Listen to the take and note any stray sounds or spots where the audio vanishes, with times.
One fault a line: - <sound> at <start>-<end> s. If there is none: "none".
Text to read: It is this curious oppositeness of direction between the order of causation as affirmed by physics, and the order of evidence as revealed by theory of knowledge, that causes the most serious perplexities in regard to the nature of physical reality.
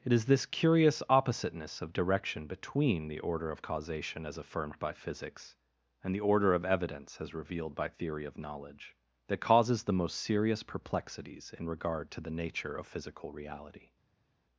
none